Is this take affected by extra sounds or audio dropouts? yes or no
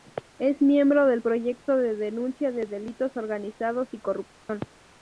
yes